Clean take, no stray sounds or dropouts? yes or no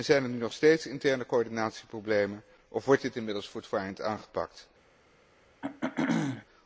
no